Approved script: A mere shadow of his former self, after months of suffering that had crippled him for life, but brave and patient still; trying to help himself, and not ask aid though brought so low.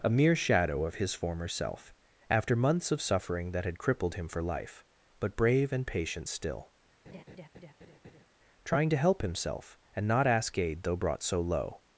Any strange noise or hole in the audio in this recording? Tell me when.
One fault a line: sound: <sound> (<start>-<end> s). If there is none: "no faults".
sound: laugh (7.0-8.3 s)